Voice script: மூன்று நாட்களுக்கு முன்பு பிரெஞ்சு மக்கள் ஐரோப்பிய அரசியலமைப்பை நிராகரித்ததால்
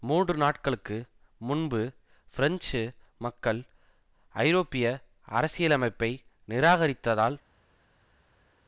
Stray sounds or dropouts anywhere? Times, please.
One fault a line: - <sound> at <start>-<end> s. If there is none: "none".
none